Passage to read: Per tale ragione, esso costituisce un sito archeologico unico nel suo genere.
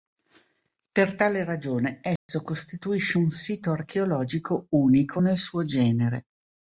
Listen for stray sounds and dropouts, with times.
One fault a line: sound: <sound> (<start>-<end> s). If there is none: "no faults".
sound: dropout (2.2-2.3 s)